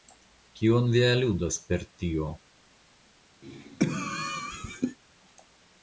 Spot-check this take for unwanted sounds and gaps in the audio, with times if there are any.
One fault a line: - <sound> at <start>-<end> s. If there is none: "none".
- cough at 3.4-5.0 s